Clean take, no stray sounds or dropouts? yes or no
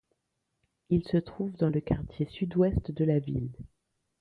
yes